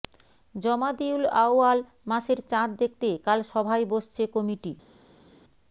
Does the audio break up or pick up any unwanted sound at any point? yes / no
no